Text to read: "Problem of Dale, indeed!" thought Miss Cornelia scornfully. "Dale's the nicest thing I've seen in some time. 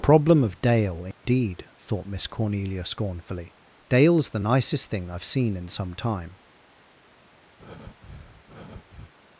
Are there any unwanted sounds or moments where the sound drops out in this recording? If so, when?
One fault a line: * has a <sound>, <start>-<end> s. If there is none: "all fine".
* has a dropout, 1.1-1.3 s
* has a breath, 7.6-9.1 s